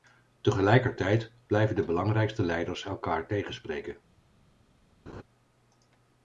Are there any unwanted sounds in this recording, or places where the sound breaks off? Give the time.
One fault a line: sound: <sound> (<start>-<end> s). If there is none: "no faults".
sound: laugh (5.1-5.2 s)